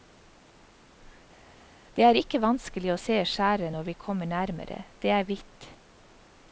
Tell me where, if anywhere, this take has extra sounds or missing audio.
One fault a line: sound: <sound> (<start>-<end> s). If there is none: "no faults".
no faults